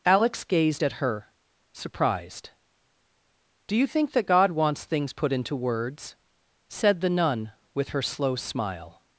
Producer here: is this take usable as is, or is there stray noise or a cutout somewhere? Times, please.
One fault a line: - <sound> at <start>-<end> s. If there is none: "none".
none